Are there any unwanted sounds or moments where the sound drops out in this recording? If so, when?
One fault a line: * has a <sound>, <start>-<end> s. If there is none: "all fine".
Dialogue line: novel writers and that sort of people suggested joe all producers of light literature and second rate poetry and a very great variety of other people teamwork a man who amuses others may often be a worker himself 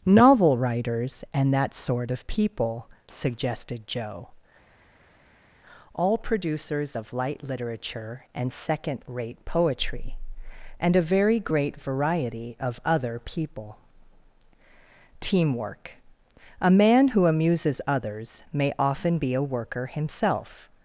all fine